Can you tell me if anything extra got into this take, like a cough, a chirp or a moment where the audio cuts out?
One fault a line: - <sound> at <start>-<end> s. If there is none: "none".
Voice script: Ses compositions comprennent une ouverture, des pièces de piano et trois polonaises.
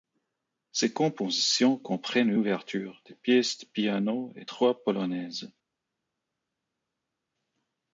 none